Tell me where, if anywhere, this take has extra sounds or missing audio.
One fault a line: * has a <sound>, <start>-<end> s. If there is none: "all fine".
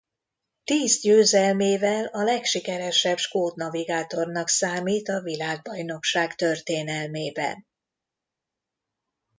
all fine